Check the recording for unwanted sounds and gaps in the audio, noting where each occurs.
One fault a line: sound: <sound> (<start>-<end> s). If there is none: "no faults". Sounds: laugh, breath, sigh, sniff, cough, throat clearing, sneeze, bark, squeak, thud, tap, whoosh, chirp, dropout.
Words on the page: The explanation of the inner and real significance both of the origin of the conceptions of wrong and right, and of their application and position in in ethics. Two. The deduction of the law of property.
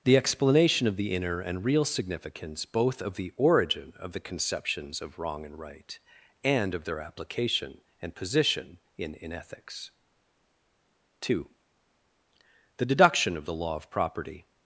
no faults